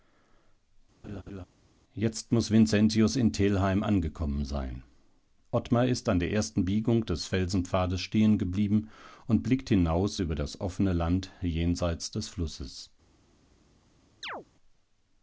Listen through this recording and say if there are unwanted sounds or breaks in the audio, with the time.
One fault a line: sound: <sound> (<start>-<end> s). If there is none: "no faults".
sound: laugh (1.0-1.4 s)
sound: chirp (14.2-14.5 s)